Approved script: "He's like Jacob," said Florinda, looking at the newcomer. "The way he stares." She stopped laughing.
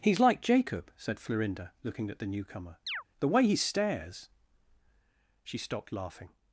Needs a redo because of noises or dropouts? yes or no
yes